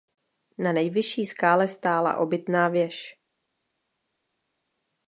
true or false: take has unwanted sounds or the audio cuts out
false